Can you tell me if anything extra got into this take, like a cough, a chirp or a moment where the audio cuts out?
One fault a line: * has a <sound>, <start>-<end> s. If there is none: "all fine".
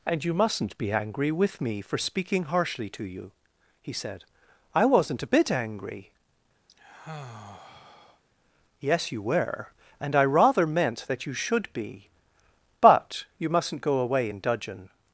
* has a sigh, 6.7-8.2 s